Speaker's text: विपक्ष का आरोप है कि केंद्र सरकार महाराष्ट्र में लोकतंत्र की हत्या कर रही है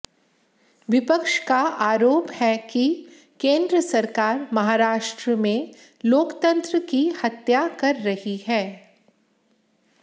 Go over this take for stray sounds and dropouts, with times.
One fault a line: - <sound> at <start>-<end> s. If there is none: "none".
none